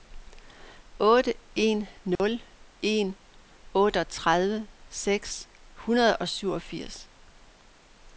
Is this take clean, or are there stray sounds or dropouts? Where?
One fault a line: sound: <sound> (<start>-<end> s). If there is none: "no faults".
sound: dropout (2.2-2.2 s)